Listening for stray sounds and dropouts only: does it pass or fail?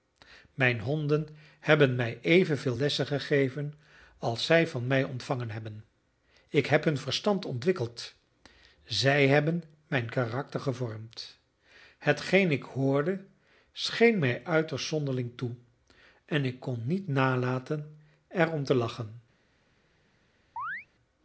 fail